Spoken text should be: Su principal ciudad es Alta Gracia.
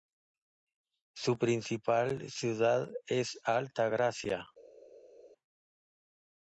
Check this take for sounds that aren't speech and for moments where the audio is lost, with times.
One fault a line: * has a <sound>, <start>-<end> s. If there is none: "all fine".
all fine